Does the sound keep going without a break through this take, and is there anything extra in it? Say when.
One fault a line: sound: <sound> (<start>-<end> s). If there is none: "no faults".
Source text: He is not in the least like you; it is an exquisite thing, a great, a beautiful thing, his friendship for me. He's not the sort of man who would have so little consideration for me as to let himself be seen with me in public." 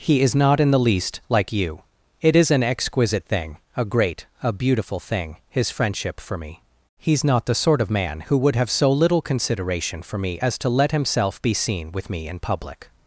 no faults